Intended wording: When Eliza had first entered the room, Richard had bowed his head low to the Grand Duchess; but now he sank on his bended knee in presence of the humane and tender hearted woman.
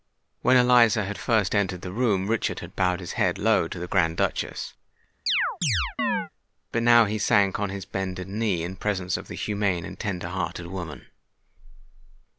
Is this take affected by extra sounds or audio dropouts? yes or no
yes